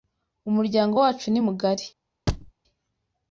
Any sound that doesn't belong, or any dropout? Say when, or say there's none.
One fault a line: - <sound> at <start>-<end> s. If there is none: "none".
- thud at 2.3-2.5 s